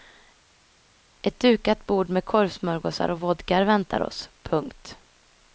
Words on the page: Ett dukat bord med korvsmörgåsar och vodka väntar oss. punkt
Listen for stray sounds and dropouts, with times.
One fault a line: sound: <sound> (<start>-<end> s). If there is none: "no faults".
no faults